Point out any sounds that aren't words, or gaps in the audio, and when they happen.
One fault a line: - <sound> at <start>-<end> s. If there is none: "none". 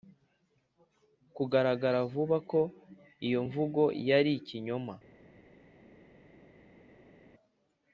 none